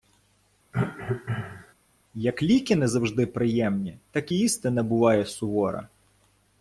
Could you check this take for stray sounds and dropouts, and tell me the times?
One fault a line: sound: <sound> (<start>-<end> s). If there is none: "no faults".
sound: cough (0.7-1.7 s)